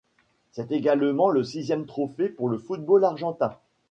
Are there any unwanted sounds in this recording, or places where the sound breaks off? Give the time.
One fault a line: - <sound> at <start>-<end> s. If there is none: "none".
none